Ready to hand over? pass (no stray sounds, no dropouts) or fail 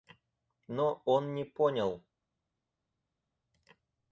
pass